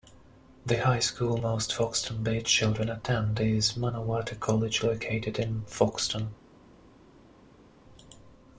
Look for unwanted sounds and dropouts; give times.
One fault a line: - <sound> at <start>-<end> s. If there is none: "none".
none